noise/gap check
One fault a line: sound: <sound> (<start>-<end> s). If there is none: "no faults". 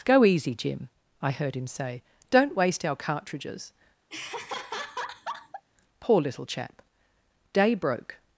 sound: laugh (4.1-5.6 s)